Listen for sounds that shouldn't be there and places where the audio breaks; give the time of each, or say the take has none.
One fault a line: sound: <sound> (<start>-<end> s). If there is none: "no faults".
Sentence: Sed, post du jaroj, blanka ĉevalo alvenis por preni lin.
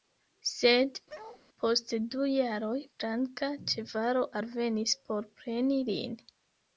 sound: bark (1.1-1.4 s)